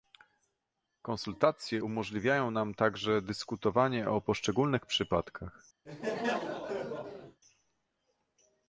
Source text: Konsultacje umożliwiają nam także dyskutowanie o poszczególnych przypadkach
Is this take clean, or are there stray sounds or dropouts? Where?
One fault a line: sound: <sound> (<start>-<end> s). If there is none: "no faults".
sound: laugh (5.9-7.4 s)